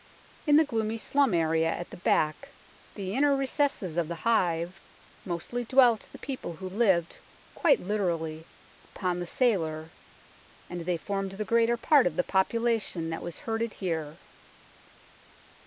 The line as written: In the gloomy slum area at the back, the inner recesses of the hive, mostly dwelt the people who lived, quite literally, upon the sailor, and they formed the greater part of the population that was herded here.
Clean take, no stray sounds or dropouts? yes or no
no